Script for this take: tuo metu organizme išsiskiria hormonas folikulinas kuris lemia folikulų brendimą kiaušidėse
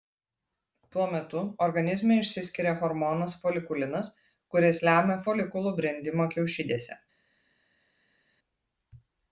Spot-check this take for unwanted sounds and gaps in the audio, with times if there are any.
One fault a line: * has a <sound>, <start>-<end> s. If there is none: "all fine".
all fine